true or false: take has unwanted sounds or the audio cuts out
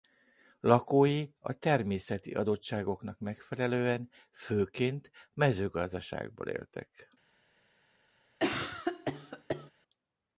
true